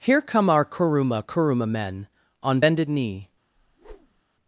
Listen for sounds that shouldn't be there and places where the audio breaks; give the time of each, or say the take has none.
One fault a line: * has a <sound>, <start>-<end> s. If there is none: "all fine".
* has a whoosh, 3.6-4.2 s